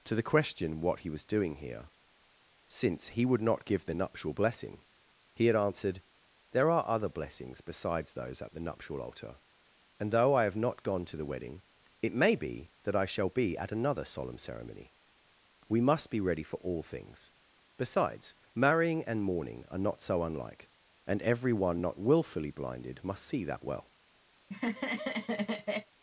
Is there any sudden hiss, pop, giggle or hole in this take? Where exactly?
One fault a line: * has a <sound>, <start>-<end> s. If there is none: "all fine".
* has a laugh, 24.4-25.9 s